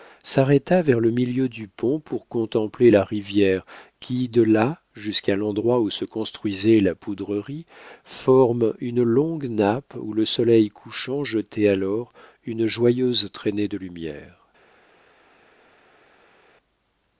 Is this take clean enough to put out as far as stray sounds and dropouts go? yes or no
yes